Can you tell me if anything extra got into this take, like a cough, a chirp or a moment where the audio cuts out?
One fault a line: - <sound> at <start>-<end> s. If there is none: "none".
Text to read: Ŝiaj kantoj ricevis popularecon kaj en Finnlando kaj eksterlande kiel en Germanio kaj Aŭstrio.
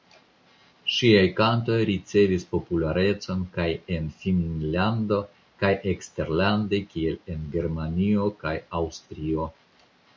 none